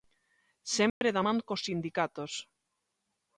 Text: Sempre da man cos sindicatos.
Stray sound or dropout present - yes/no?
yes